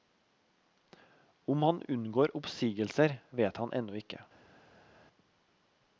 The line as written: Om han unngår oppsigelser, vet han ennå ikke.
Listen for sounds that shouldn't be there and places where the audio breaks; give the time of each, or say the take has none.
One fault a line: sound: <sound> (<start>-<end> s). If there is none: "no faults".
no faults